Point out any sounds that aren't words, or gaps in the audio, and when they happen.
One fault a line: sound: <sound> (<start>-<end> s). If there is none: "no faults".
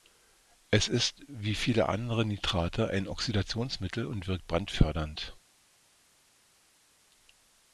no faults